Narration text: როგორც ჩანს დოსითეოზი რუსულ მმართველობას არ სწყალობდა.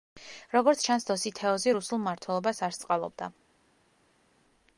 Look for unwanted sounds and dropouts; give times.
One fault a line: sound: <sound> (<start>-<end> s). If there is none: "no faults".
no faults